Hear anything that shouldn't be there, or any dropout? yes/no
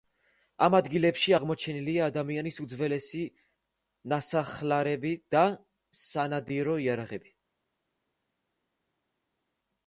no